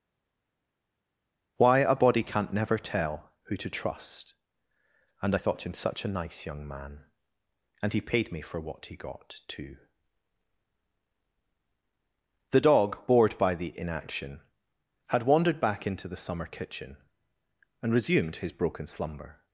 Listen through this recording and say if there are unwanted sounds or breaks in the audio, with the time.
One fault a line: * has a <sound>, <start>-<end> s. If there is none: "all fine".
all fine